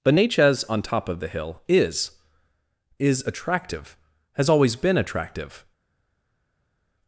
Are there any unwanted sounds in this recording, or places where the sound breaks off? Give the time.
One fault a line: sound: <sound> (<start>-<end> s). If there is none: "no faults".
no faults